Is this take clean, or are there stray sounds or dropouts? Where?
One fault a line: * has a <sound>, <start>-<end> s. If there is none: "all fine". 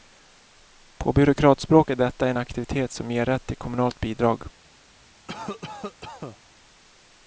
* has a cough, 5.3-6.4 s